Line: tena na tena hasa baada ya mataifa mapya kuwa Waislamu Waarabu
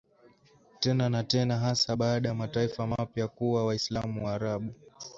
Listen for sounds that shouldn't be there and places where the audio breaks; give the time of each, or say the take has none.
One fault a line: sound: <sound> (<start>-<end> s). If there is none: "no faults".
no faults